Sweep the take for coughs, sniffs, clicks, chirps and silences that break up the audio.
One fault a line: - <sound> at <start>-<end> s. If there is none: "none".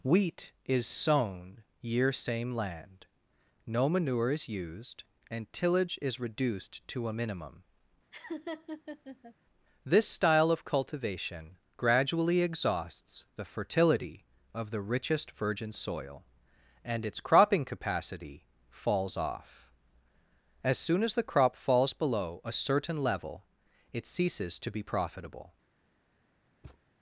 - laugh at 8.1-9.3 s
- thud at 26.6-26.8 s